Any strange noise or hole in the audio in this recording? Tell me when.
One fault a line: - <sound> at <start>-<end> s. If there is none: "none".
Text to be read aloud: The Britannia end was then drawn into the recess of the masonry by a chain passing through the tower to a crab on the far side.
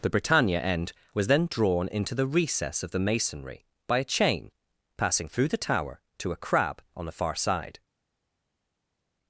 none